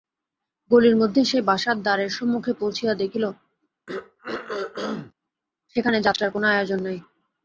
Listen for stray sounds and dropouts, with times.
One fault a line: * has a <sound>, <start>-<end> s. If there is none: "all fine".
* has a throat clearing, 3.9-5.1 s